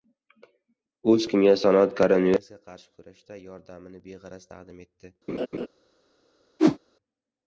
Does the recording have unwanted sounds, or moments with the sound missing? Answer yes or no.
yes